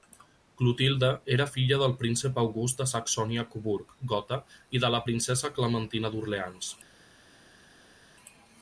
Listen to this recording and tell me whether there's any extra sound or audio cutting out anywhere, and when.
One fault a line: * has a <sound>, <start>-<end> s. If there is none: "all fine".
all fine